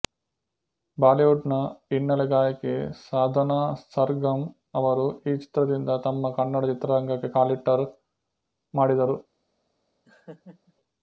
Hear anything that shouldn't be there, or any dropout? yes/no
yes